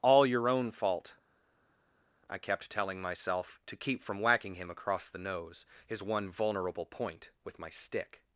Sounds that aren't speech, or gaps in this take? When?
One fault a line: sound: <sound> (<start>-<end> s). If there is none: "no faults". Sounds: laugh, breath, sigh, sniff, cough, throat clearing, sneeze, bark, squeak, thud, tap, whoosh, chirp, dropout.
no faults